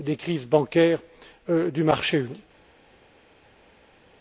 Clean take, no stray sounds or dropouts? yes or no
yes